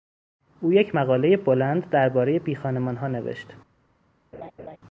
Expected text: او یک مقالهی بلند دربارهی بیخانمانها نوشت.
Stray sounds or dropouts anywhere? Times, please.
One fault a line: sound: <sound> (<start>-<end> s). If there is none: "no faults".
sound: laugh (4.3-4.8 s)